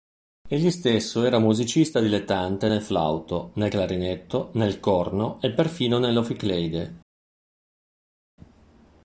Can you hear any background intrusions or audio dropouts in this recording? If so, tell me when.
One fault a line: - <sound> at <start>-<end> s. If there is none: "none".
none